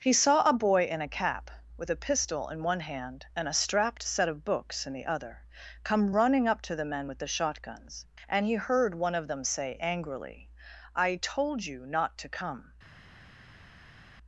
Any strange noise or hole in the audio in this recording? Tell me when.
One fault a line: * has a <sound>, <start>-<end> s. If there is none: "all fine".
all fine